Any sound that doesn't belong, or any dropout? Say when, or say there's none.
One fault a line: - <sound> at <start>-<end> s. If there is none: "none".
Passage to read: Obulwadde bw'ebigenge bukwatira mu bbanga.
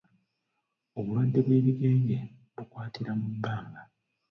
none